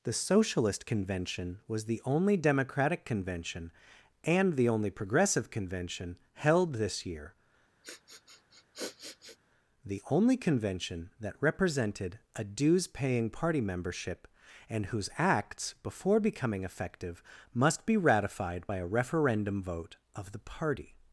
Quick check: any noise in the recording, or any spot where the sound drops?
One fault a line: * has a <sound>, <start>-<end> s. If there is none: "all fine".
* has a sniff, 7.8-9.4 s